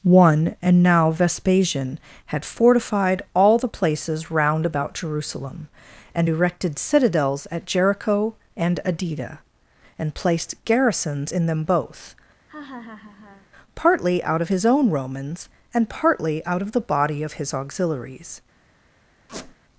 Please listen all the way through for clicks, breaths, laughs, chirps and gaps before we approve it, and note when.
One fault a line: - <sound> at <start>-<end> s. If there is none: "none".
- laugh at 12.5-13.5 s
- squeak at 19.3-19.6 s